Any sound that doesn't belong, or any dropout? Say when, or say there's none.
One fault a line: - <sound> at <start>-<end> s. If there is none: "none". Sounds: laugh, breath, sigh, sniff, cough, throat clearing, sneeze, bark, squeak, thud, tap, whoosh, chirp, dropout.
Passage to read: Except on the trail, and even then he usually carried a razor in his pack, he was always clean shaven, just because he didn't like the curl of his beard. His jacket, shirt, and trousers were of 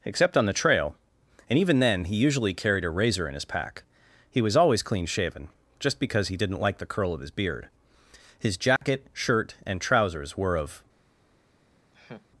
- dropout at 8.8-8.8 s
- laugh at 11.9-12.3 s